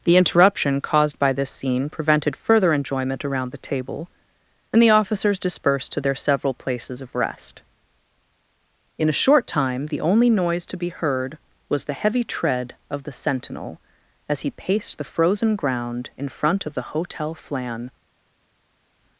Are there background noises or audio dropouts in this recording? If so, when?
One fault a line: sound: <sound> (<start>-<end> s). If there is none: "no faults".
no faults